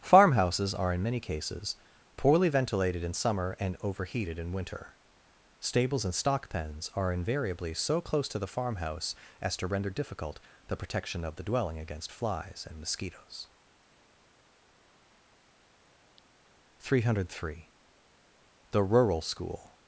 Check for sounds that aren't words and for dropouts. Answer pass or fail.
pass